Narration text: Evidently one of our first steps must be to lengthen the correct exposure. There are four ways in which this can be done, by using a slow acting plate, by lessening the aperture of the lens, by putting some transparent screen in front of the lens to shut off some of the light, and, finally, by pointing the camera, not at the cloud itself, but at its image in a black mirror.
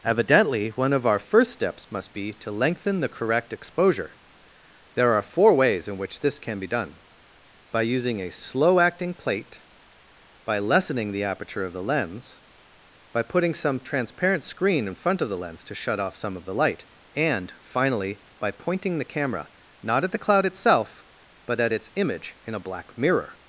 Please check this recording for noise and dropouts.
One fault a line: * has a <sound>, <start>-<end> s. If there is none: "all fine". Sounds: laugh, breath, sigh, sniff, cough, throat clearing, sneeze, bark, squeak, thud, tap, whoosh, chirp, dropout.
all fine